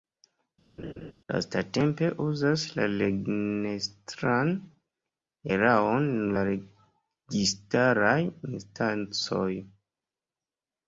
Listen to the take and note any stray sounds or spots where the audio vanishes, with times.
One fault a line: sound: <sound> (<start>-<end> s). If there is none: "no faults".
sound: laugh (0.8-1.1 s)